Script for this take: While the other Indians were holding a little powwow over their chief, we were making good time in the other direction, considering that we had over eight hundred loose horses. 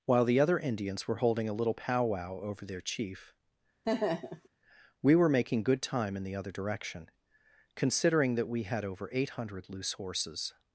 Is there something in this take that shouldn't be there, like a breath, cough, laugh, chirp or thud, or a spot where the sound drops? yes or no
yes